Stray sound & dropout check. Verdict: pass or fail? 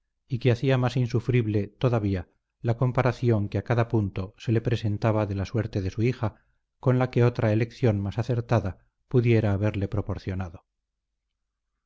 pass